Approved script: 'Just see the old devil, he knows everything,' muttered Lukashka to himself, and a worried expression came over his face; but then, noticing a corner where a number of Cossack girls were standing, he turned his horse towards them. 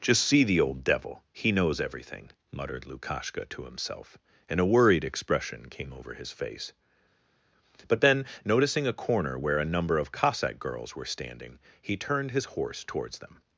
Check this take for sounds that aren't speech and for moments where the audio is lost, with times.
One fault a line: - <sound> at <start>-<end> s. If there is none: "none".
none